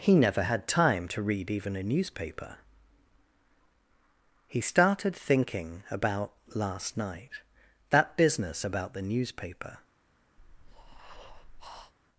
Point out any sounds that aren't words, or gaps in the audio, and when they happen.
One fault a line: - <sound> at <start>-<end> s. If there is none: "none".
- breath at 10.4-11.9 s